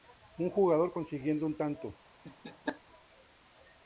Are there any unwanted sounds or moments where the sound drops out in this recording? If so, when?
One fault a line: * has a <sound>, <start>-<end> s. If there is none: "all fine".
* has a laugh, 2.2-2.8 s